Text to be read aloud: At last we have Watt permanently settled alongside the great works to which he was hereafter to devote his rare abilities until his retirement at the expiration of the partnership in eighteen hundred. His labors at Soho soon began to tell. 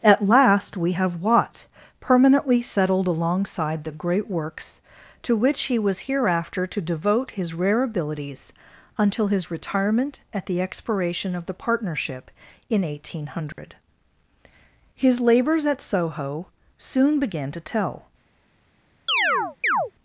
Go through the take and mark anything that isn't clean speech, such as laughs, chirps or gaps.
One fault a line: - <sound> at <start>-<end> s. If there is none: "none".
- dropout at 13.5-13.6 s
- chirp at 19.1-19.9 s